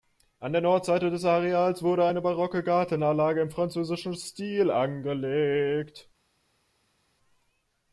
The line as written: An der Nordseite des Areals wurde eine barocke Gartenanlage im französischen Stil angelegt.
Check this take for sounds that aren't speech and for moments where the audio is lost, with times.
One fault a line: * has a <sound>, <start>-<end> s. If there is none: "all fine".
all fine